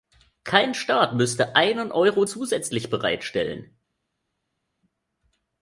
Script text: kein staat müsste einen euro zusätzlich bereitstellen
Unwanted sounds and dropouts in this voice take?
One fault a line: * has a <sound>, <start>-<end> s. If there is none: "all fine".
all fine